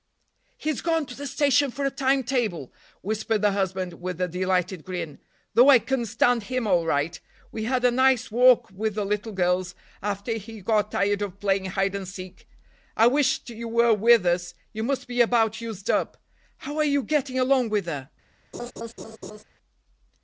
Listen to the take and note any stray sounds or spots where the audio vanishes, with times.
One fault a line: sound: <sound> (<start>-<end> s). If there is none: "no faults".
sound: laugh (18.5-19.4 s)